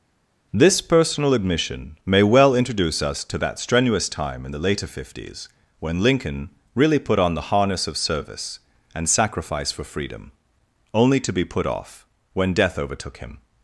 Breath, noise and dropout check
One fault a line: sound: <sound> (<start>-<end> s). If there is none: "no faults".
no faults